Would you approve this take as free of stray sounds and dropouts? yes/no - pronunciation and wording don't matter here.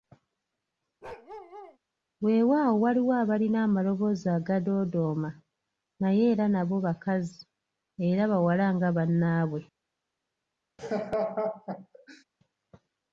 no